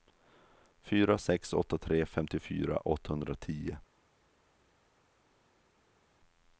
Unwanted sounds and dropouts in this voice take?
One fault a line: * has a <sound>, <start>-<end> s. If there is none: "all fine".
all fine